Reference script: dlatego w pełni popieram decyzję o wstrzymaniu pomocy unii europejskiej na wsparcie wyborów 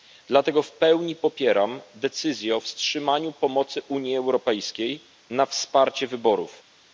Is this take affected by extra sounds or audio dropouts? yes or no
no